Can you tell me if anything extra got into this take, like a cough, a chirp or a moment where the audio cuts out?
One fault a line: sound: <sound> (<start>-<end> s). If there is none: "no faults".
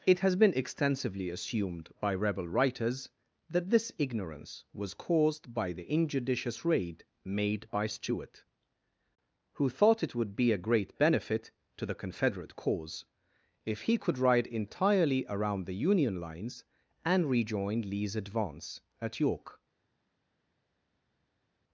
no faults